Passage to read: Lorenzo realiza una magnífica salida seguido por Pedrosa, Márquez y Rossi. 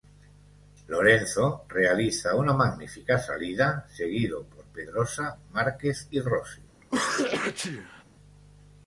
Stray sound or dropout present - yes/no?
yes